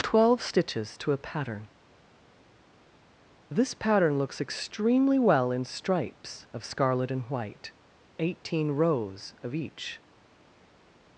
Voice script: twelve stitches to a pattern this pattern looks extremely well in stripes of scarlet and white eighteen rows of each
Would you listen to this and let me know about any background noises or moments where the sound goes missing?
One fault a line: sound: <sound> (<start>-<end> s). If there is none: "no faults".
no faults